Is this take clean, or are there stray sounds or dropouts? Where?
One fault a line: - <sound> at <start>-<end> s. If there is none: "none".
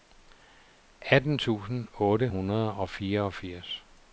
none